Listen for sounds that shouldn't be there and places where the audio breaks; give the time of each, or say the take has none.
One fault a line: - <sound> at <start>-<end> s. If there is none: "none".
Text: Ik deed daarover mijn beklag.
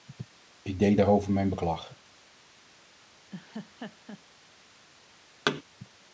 - laugh at 3.3-4.2 s
- thud at 5.5-5.6 s